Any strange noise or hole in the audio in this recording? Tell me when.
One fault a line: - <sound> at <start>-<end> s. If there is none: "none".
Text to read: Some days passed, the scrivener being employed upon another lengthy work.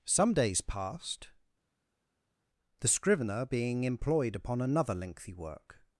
none